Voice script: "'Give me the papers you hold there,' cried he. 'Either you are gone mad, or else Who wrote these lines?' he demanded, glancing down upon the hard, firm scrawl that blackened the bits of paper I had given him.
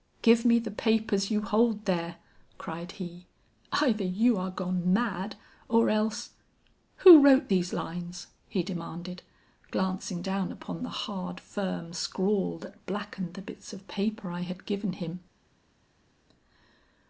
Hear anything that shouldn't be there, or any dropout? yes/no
no